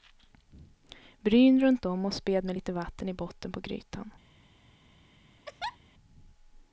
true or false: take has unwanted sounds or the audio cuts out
true